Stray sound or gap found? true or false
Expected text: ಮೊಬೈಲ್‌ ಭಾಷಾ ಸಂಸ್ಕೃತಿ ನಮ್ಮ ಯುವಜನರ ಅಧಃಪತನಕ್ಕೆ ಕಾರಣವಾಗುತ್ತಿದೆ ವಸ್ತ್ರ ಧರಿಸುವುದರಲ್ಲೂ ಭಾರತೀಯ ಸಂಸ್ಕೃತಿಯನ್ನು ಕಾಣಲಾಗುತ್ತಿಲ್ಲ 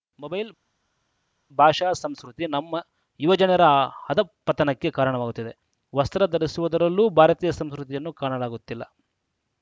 false